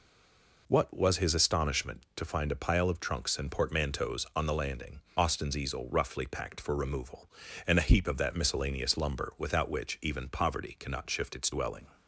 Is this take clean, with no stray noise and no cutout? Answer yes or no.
yes